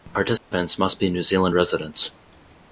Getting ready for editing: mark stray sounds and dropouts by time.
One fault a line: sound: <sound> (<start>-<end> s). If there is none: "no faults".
sound: dropout (0.4-0.5 s)